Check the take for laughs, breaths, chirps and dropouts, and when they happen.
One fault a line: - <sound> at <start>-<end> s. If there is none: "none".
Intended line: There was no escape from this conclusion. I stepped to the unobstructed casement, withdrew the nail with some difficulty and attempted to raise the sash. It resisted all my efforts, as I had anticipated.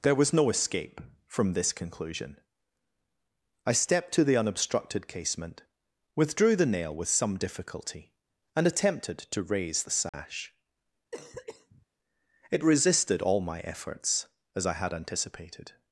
- dropout at 10.1-10.1 s
- cough at 11.1-11.9 s